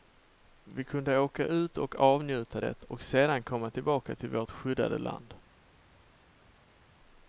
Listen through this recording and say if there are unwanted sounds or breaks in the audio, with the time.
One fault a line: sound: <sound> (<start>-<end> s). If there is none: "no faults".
no faults